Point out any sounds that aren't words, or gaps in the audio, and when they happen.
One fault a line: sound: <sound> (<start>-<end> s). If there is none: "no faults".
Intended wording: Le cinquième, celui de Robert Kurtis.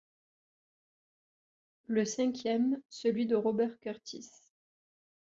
no faults